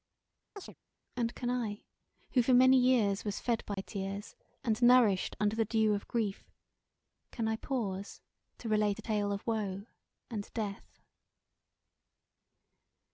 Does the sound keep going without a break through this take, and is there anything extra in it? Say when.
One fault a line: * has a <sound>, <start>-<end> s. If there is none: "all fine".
* has a chirp, 0.6-0.7 s
* has a dropout, 3.7-3.8 s